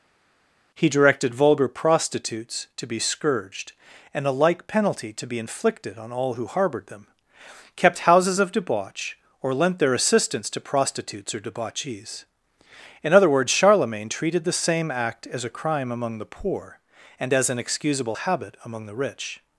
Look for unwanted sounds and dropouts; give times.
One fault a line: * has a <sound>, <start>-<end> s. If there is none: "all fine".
all fine